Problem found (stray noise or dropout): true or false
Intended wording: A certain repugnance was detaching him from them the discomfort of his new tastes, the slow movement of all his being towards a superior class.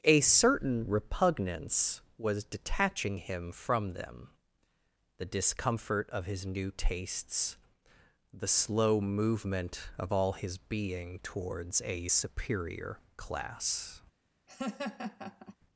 true